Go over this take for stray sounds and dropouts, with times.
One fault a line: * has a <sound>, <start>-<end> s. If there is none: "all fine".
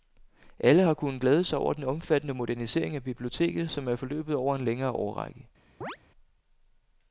* has a chirp, 5.8-6.0 s